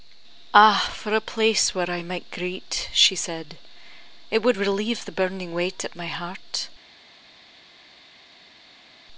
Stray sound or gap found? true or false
false